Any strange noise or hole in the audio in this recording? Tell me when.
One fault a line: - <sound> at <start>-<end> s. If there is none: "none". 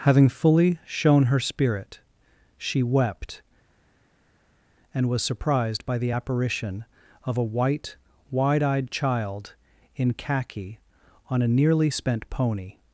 none